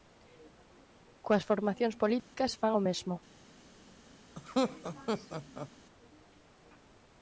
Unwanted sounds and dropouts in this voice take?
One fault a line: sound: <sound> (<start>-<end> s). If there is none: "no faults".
sound: dropout (2.2-2.3 s)
sound: laugh (4.4-5.7 s)